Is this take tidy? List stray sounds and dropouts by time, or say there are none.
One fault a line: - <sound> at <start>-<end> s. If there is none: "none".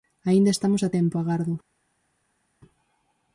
none